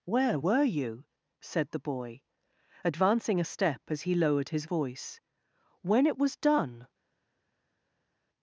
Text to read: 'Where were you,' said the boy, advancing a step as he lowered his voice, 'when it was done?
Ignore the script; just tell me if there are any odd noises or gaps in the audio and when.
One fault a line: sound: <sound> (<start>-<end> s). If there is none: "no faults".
no faults